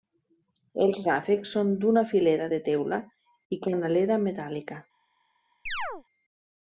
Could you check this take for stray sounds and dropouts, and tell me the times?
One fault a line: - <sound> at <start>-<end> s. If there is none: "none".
- chirp at 5.7-6.0 s